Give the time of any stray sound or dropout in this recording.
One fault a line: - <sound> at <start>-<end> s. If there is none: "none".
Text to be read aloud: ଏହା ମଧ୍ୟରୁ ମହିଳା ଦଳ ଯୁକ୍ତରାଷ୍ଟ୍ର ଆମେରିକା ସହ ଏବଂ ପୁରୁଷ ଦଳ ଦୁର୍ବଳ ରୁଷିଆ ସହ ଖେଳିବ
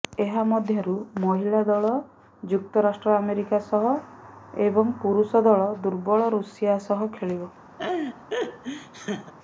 - laugh at 7.8-9.3 s